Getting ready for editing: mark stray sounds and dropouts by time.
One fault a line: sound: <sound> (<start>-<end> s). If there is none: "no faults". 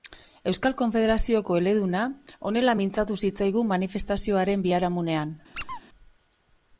sound: squeak (5.5-5.8 s)